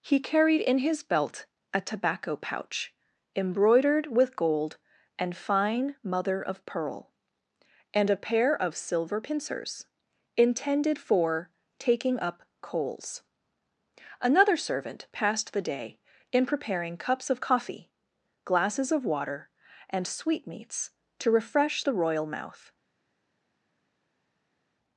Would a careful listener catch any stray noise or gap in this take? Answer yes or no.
no